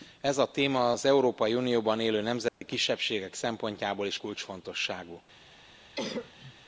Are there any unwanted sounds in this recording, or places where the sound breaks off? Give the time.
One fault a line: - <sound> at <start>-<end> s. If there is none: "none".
- dropout at 2.5-2.6 s
- cough at 5.9-6.5 s